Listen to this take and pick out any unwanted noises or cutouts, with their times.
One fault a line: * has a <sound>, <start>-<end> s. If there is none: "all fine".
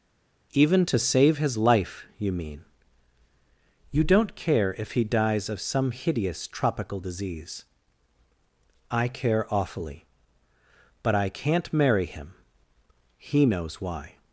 all fine